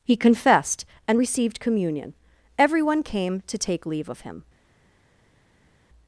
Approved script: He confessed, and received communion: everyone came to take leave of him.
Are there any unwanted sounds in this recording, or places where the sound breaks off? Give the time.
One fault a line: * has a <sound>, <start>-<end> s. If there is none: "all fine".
all fine